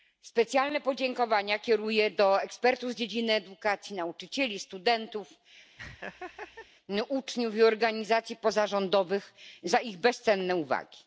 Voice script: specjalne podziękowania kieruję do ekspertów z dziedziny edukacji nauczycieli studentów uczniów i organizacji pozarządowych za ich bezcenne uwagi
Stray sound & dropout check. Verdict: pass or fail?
fail